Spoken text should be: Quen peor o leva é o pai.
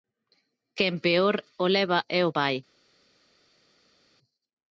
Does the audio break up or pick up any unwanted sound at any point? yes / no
no